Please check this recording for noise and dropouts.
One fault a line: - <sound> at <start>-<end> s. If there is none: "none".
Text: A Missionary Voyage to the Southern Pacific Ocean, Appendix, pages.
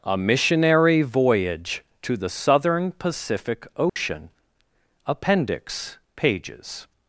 - dropout at 3.9-4.0 s